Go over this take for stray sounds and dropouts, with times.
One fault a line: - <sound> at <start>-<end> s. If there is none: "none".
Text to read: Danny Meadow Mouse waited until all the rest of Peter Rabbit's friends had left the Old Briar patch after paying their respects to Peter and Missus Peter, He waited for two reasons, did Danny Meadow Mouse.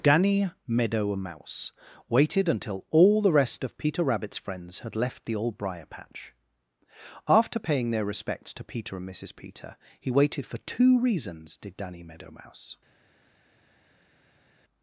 none